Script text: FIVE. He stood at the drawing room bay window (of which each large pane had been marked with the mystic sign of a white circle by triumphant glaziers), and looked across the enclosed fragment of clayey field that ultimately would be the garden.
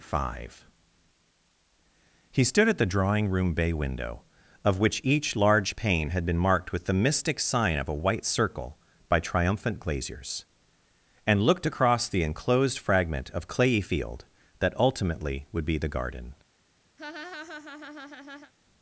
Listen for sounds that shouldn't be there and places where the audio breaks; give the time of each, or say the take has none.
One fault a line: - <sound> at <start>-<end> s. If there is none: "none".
- laugh at 17.0-18.5 s